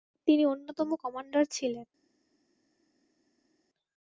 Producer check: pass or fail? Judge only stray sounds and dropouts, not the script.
pass